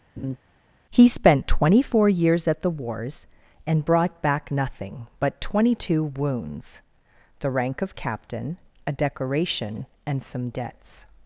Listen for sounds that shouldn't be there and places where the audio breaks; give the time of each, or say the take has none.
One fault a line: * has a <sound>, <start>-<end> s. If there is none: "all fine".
* has a laugh, 0.2-0.4 s